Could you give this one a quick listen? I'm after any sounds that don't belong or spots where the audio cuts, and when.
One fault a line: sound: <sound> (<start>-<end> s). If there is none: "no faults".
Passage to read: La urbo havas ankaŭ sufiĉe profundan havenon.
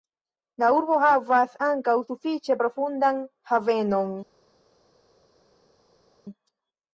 no faults